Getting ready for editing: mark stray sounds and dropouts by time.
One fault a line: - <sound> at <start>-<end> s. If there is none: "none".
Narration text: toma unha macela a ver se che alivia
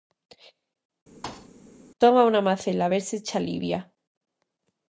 - thud at 1.2-1.5 s